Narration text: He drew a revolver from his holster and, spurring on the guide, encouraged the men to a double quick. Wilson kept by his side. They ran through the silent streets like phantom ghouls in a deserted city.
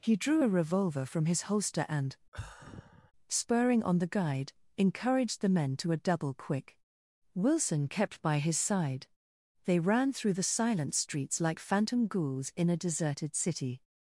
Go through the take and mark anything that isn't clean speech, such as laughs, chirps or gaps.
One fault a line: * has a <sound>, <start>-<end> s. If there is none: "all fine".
* has a sigh, 2.3-3.1 s